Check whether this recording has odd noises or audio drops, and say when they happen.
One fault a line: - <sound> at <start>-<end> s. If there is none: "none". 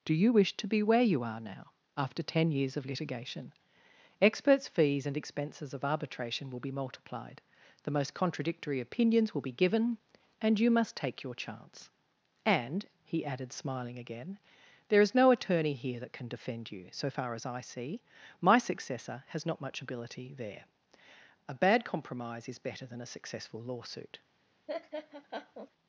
- laugh at 24.7-25.7 s